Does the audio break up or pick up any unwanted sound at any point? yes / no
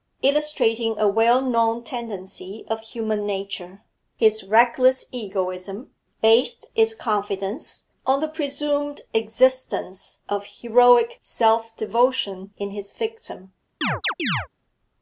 yes